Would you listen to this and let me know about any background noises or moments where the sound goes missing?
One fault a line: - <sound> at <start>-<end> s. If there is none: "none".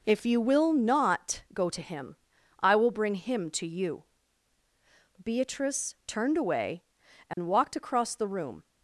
- dropout at 7.3-7.4 s